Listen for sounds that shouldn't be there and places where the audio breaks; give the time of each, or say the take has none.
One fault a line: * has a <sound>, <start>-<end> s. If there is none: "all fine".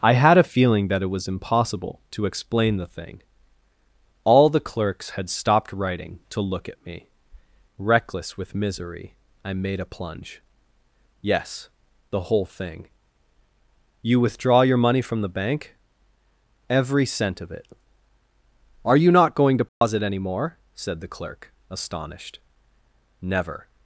* has a dropout, 19.7-19.8 s